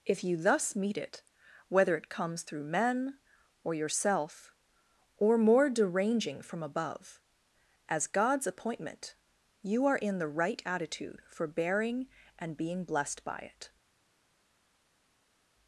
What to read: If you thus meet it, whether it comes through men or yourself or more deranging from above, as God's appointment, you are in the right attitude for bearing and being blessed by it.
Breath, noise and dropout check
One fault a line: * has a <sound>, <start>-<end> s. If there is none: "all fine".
all fine